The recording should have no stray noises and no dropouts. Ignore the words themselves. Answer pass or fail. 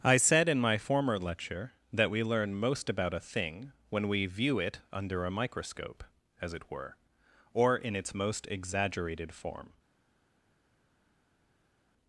pass